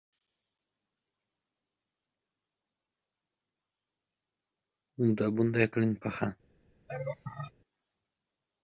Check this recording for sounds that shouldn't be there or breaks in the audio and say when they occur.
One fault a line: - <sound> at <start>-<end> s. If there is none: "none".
- laugh at 6.9-7.5 s